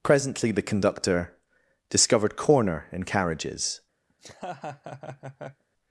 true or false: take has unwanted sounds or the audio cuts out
true